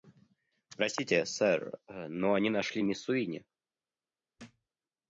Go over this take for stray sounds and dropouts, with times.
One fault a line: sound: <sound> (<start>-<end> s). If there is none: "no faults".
sound: thud (4.4-4.7 s)